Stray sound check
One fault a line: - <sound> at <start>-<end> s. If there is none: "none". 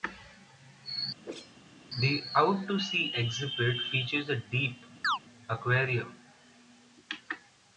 - whoosh at 1.2-1.6 s
- chirp at 5.0-5.2 s